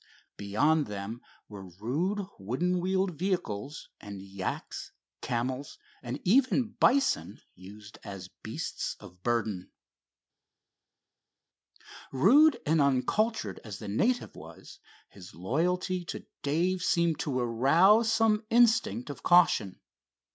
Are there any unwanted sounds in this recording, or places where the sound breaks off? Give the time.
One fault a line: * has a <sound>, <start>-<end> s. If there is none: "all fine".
all fine